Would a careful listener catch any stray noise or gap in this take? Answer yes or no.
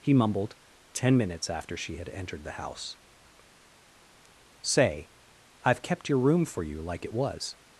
no